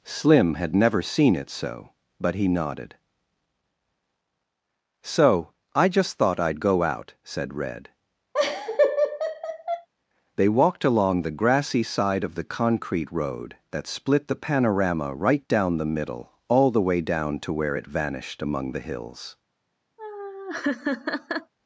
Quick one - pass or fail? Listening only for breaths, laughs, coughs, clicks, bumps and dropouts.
fail